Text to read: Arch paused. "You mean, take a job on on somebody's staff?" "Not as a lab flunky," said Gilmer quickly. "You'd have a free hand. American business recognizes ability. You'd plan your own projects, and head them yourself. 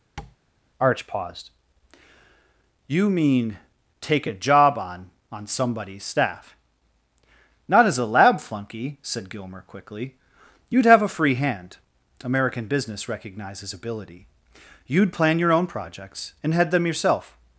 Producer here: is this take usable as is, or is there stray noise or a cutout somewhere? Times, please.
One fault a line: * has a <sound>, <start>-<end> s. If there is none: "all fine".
* has a tap, 0.2-0.4 s